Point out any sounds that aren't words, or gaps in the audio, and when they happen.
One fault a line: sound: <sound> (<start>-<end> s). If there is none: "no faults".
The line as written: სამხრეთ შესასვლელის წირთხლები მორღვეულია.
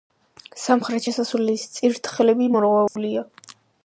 sound: dropout (2.9-3.0 s)